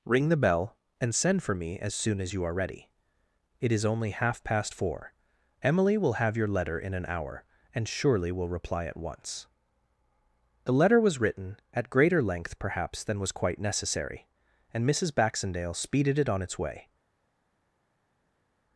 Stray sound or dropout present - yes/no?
no